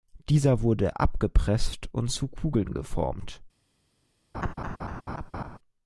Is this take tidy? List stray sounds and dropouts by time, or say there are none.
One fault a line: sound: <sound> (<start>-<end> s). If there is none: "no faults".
sound: laugh (4.3-5.6 s)